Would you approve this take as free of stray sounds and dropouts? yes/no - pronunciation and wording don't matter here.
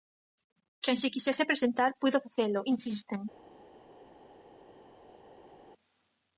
yes